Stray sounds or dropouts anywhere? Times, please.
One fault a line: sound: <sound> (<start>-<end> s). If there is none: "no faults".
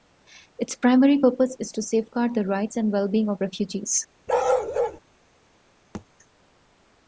sound: bark (4.3-5.0 s)
sound: thud (5.9-6.1 s)